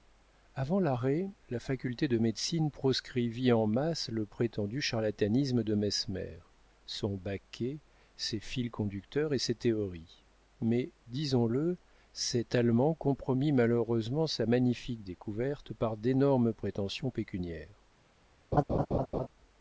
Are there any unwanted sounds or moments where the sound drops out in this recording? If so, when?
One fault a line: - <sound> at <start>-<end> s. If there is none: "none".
- laugh at 18.5-19.3 s